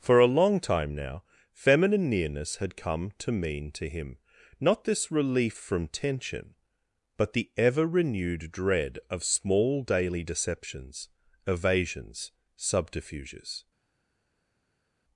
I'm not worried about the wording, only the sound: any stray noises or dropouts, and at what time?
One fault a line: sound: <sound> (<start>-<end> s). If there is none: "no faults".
no faults